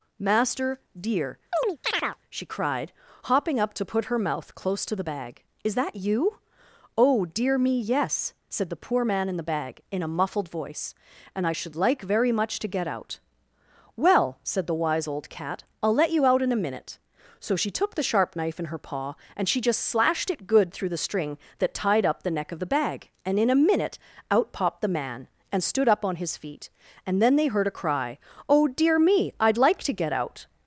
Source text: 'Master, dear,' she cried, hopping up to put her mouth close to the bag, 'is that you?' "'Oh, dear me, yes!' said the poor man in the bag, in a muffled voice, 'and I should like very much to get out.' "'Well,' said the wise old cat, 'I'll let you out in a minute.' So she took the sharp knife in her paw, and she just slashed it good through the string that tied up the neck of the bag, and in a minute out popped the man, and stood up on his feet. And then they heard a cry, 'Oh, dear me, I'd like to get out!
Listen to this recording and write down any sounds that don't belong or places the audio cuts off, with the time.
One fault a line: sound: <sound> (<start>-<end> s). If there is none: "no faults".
sound: chirp (1.5-2.2 s)